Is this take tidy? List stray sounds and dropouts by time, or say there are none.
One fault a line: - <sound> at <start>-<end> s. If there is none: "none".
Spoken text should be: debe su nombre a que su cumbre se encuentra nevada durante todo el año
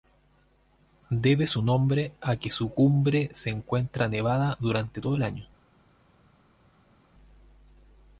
none